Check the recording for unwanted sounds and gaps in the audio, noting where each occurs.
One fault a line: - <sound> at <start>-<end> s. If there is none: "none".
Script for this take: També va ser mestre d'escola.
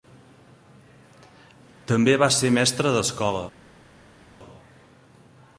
none